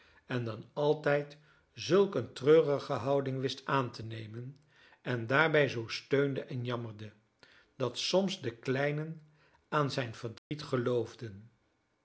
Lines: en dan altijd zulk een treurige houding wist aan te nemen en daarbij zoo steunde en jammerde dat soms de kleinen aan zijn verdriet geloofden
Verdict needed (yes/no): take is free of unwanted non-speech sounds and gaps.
no